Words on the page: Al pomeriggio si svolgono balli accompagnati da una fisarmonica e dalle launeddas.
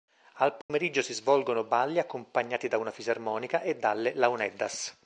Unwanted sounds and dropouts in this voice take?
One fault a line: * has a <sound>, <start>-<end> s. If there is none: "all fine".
* has a dropout, 0.6-0.7 s